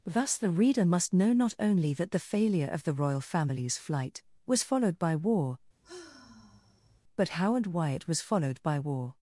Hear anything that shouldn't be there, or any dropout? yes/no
yes